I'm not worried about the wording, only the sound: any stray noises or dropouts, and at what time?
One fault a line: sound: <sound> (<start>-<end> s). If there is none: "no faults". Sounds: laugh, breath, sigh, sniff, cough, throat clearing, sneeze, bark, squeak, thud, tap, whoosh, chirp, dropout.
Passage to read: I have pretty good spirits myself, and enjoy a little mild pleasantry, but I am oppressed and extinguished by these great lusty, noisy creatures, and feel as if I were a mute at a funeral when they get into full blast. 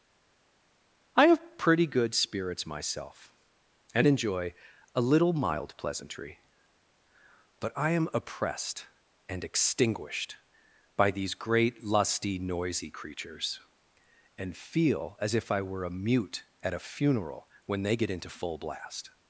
no faults